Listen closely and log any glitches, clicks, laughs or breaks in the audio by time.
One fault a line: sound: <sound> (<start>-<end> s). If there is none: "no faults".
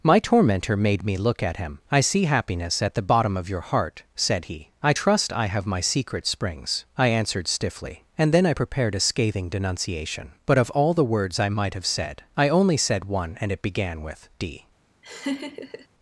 sound: laugh (15.0-15.9 s)